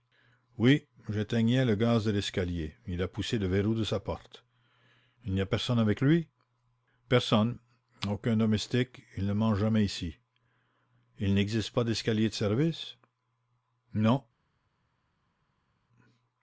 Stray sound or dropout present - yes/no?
no